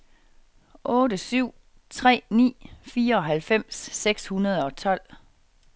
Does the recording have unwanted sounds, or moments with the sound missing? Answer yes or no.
no